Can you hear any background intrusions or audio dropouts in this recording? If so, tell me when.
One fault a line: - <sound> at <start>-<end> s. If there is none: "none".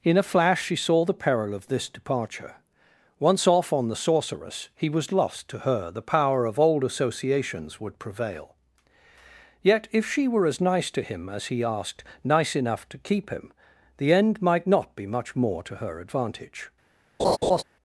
- laugh at 17.2-17.6 s